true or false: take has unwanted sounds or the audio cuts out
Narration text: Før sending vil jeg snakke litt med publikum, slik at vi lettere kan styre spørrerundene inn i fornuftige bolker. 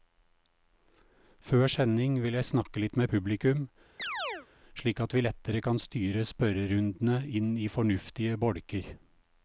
true